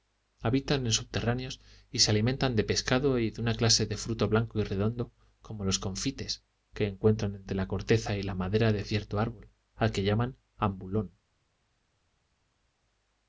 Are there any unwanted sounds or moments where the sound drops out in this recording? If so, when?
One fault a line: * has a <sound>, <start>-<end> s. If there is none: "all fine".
all fine